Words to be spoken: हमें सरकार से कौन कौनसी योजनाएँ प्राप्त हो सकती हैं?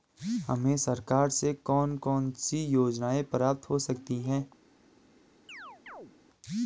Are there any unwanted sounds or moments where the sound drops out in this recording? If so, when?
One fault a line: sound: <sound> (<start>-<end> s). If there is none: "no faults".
sound: chirp (5.5-6.1 s)